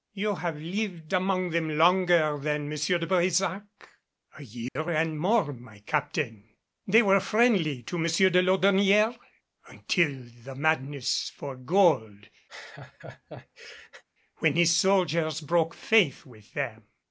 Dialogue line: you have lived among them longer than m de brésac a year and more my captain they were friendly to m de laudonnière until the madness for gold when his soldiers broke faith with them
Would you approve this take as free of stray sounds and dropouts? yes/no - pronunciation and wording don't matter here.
no